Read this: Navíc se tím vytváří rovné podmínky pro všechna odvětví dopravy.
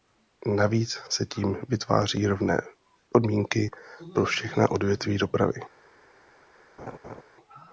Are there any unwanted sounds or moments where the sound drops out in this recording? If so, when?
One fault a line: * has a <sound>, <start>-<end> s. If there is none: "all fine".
* has a laugh, 6.8-7.2 s